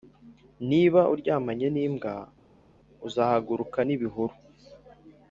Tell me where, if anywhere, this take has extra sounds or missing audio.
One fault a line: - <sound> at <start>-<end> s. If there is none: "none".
none